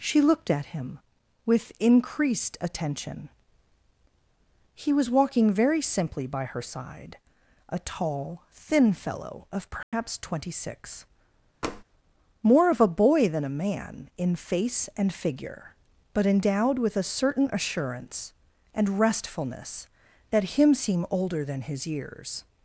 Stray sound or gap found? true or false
true